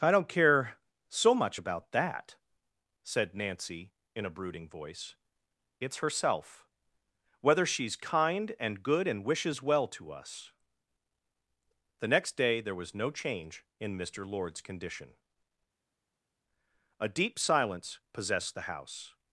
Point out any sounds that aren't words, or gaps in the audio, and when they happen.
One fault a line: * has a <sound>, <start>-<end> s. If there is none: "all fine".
all fine